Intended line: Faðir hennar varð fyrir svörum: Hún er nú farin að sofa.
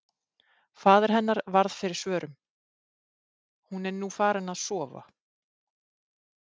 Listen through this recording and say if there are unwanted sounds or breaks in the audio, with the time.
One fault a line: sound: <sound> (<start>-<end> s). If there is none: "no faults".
no faults